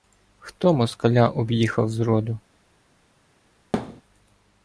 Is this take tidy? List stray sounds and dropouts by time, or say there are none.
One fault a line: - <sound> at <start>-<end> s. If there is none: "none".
- thud at 3.7-4.0 s